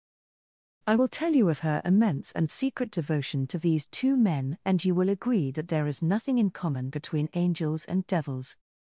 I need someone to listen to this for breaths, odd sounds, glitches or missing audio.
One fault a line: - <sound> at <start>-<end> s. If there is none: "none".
none